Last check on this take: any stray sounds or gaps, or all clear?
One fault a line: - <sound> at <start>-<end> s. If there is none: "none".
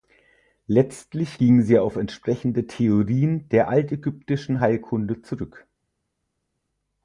none